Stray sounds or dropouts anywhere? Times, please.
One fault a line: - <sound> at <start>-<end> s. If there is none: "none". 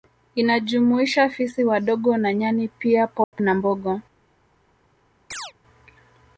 - dropout at 3.2-3.3 s
- chirp at 5.3-5.5 s